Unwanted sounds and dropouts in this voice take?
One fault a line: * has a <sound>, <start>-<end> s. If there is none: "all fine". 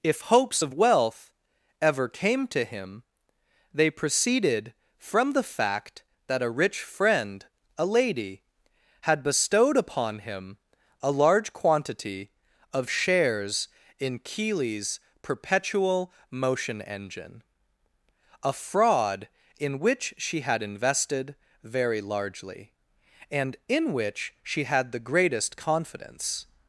all fine